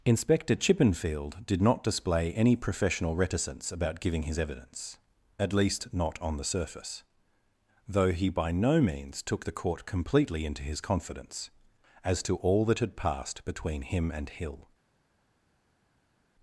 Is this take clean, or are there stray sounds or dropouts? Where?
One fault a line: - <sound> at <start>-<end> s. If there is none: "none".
none